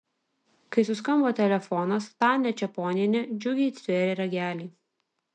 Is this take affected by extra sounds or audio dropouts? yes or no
no